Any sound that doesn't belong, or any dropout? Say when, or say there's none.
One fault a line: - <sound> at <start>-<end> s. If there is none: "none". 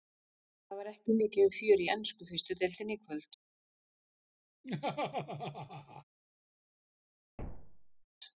- laugh at 4.6-6.0 s
- thud at 7.4-8.0 s